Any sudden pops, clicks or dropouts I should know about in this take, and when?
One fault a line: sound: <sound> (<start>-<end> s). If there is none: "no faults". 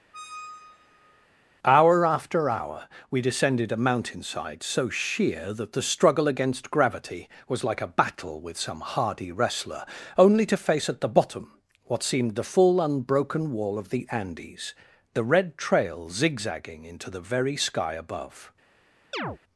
sound: squeak (0.1-1.3 s)
sound: chirp (19.1-19.4 s)